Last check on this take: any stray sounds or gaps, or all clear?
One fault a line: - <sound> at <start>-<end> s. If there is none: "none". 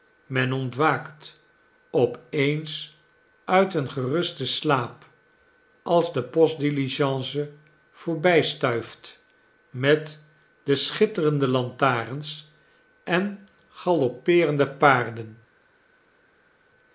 none